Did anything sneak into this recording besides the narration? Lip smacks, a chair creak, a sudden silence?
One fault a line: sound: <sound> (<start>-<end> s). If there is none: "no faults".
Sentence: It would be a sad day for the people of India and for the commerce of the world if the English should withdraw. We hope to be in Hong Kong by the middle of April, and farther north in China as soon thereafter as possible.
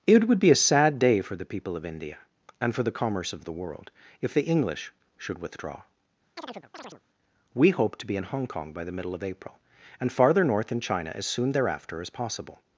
sound: chirp (6.4-7.0 s)